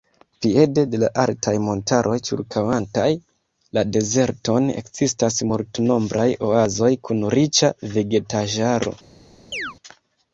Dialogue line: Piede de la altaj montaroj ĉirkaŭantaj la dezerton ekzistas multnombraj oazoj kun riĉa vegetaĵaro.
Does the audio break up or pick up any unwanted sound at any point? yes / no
yes